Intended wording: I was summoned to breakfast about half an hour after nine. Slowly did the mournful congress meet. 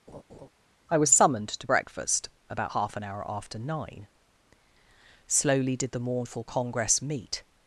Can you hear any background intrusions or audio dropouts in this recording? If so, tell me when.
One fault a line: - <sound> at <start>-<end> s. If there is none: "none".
- laugh at 0.1-0.5 s